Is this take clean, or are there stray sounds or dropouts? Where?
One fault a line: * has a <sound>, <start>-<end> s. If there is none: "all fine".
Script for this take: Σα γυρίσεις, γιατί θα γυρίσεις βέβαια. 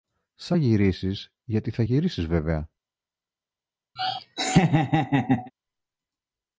* has a laugh, 4.0-5.5 s